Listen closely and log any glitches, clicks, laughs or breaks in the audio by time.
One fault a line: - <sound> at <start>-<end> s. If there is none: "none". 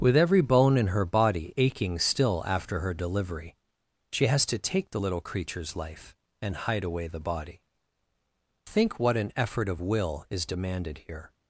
none